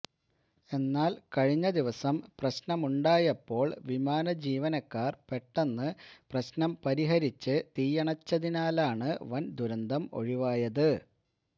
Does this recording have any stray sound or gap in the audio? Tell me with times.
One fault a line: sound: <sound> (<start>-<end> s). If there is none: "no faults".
no faults